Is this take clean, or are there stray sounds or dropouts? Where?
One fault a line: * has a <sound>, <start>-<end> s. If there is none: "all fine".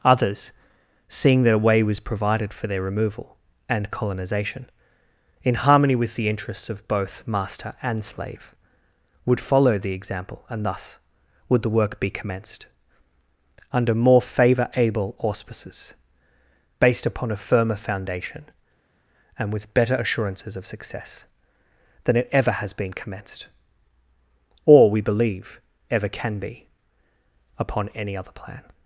all fine